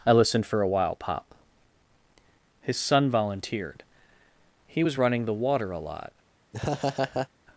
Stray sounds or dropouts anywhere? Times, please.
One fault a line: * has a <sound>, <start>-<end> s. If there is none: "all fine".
* has a laugh, 6.5-7.3 s